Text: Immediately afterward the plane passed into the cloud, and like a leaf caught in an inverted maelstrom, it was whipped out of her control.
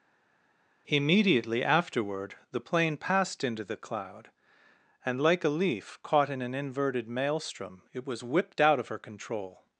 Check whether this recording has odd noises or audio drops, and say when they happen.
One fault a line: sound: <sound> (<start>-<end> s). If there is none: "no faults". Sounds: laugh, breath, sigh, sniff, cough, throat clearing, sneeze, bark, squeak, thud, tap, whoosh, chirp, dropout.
no faults